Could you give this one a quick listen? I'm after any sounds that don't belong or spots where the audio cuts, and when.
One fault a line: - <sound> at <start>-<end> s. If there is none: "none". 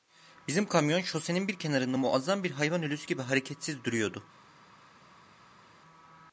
none